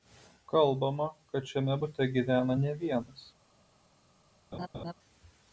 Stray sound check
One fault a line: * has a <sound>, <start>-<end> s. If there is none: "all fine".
* has a laugh, 4.5-4.9 s